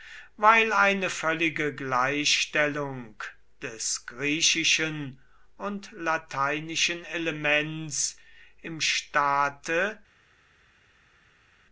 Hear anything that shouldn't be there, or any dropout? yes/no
no